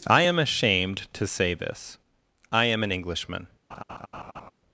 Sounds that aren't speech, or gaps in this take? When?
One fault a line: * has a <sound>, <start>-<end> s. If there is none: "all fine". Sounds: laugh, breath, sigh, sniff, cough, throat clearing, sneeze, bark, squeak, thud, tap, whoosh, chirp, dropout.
* has a laugh, 3.7-4.5 s